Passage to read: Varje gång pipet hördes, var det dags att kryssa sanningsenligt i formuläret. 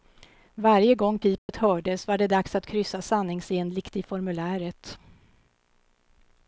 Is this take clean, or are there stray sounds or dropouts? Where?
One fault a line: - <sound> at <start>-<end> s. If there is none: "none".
- dropout at 1.4-1.5 s